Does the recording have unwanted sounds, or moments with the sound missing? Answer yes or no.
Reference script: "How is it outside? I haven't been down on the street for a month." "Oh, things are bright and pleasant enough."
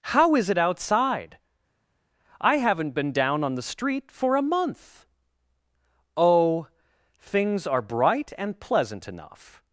no